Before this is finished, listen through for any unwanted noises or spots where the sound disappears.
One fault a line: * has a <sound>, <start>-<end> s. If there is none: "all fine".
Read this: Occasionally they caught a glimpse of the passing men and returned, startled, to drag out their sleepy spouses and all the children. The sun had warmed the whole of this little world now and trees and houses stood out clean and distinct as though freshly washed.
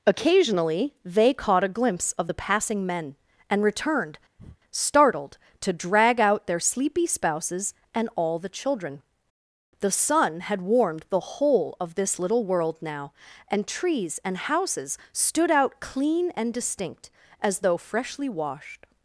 * has a breath, 4.4-4.6 s